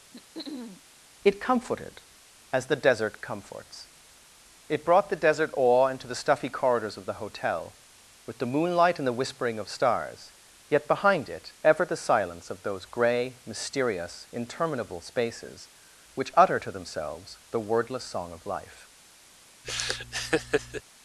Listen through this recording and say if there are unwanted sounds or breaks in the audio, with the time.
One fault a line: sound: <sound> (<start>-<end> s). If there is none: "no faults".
sound: throat clearing (0.1-0.8 s)
sound: laugh (19.6-20.8 s)